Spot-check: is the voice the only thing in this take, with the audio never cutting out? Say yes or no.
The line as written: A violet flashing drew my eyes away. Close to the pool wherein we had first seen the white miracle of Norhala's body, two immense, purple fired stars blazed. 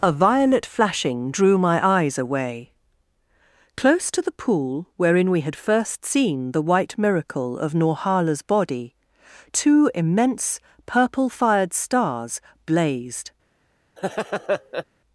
no